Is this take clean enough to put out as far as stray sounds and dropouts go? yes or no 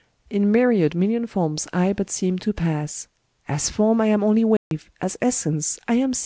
no